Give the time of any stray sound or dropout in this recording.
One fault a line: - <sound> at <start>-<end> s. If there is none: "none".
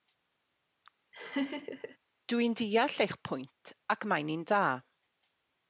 - laugh at 1.1-2.0 s